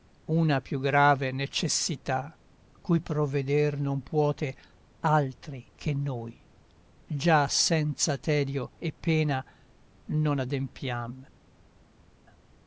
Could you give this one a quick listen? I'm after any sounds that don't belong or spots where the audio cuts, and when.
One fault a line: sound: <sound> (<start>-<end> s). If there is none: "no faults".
no faults